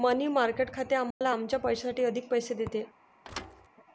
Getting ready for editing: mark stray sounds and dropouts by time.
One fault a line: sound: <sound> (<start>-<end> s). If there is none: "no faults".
sound: dropout (1.1-1.2 s)
sound: thud (3.2-3.7 s)